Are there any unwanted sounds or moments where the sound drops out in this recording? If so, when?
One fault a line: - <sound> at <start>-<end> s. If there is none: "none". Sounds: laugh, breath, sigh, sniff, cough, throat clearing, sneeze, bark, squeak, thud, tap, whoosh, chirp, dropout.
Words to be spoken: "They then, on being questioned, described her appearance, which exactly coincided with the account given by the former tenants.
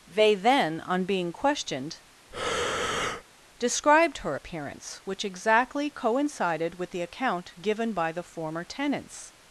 - breath at 2.3-3.2 s